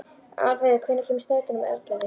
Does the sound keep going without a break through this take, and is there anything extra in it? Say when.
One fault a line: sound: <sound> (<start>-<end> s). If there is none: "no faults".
no faults